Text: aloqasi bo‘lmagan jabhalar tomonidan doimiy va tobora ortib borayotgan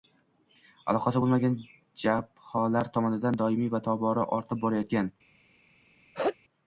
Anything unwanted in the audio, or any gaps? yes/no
yes